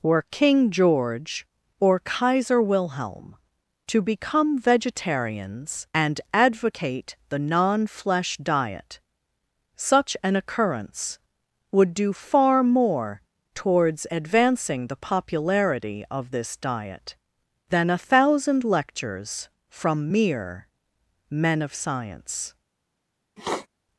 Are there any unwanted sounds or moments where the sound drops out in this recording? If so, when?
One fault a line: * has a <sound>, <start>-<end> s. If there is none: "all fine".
* has a sniff, 23.4-23.7 s